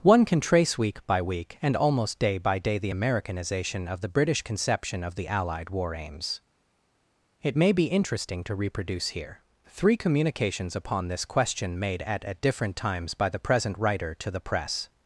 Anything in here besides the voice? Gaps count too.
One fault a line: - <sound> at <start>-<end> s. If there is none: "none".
none